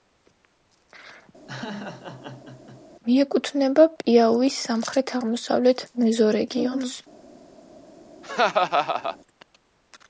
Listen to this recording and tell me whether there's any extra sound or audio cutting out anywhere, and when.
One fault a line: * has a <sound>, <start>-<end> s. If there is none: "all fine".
* has a laugh, 1.5-2.8 s
* has a laugh, 8.2-9.2 s